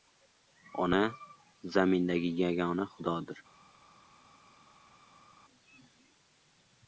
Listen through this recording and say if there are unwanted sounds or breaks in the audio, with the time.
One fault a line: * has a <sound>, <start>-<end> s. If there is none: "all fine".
all fine